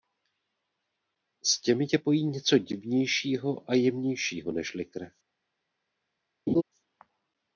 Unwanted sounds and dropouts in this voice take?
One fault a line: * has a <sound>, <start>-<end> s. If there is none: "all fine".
* has a laugh, 6.5-6.6 s